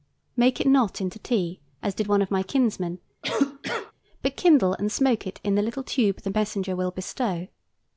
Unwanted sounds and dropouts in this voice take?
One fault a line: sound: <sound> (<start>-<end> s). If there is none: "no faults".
sound: cough (3.2-3.9 s)